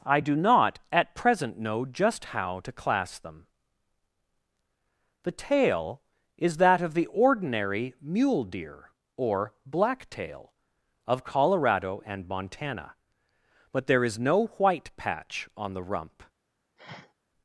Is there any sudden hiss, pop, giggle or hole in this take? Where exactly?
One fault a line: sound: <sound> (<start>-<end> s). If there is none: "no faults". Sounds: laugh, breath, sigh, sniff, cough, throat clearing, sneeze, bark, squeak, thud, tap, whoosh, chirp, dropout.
sound: sniff (16.8-17.1 s)